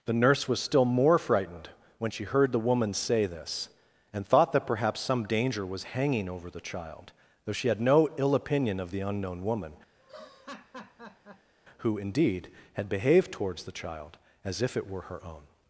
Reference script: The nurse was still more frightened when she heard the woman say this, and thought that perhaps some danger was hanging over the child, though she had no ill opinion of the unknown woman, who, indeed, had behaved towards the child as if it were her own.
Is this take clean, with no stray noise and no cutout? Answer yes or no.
no